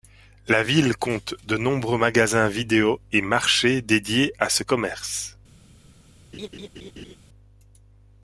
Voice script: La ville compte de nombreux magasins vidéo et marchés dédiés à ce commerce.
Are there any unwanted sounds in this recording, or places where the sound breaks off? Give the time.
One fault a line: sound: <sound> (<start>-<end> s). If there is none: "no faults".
sound: laugh (6.3-7.2 s)